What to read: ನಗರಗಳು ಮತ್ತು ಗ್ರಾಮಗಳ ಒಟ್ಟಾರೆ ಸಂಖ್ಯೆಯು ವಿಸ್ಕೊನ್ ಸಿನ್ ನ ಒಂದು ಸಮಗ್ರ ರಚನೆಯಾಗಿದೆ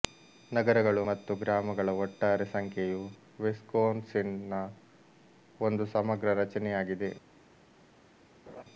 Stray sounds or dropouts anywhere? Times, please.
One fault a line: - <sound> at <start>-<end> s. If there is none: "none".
- laugh at 8.5-8.6 s